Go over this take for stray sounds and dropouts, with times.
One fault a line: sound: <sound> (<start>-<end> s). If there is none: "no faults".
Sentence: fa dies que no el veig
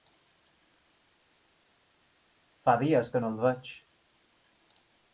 no faults